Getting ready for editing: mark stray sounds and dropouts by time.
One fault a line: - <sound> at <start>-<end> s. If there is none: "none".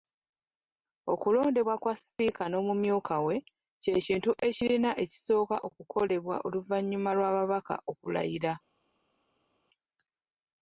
none